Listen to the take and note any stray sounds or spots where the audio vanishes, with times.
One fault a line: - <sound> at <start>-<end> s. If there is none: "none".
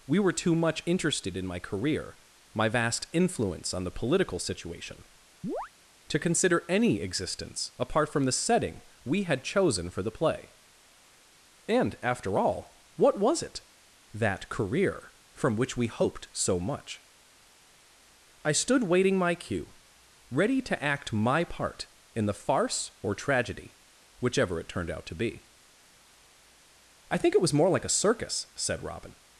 - chirp at 5.4-5.7 s